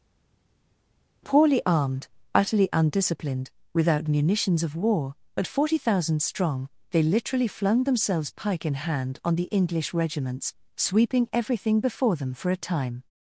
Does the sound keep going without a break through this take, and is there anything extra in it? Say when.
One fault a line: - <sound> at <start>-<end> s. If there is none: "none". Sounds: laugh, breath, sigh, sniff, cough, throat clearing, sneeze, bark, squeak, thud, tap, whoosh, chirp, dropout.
none